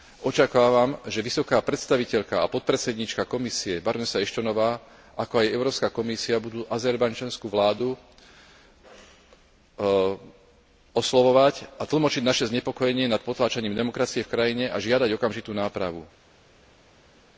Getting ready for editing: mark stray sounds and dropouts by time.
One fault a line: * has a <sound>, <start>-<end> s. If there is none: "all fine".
all fine